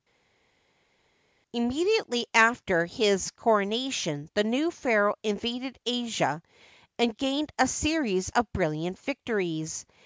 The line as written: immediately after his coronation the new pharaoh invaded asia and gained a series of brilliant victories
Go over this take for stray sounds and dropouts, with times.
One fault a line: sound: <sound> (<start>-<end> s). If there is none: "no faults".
no faults